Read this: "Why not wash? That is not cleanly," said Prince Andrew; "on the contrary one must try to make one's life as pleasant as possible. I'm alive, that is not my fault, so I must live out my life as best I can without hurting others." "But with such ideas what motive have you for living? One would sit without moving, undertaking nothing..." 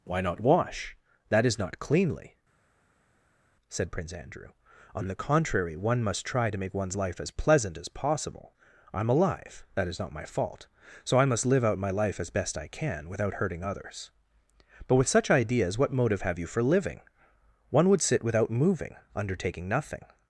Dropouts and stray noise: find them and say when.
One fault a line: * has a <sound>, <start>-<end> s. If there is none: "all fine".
all fine